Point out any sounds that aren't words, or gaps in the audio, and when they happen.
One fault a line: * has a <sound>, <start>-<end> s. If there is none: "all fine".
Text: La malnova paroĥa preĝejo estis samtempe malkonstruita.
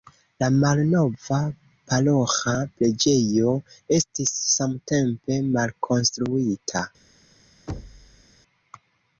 * has a thud, 7.7-8.2 s